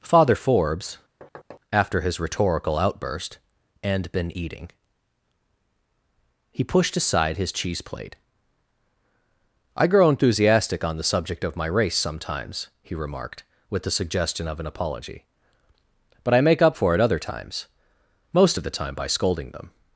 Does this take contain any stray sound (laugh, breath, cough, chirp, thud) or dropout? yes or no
yes